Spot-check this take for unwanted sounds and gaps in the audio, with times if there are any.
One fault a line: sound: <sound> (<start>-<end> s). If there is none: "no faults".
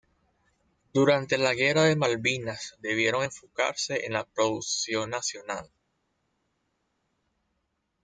no faults